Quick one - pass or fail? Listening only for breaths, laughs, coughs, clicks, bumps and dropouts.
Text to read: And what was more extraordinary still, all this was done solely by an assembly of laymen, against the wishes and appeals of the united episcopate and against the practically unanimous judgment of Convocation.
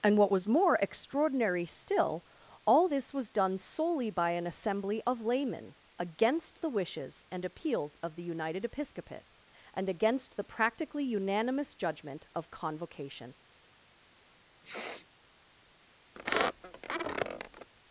fail